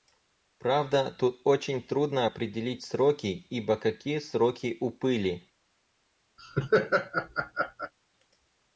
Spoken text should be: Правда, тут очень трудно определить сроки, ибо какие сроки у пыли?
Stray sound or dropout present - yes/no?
yes